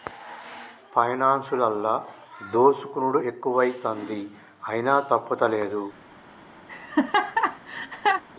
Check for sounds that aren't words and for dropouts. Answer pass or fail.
fail